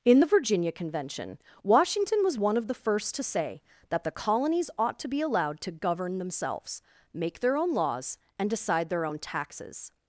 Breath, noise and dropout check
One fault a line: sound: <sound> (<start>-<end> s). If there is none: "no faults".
no faults